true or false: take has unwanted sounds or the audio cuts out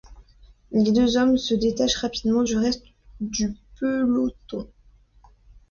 false